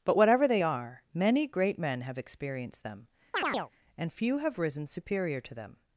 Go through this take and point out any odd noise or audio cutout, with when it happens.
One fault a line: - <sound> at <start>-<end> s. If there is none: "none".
- chirp at 3.3-3.7 s